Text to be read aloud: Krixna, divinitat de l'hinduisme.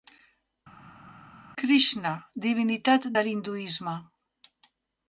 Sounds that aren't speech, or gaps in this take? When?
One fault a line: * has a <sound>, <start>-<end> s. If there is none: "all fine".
all fine